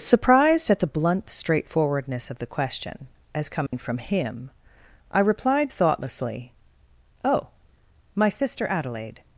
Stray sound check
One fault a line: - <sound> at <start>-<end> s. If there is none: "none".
- dropout at 3.7-3.7 s